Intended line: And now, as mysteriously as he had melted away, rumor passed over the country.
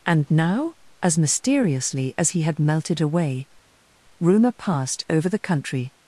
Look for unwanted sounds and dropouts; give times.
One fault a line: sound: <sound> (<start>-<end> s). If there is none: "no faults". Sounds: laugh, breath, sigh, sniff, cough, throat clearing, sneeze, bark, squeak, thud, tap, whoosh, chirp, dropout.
no faults